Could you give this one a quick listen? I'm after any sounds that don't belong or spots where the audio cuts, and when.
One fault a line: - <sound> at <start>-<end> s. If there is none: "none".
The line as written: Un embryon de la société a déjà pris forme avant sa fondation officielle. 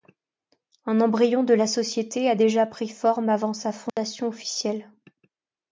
- dropout at 3.9-4.0 s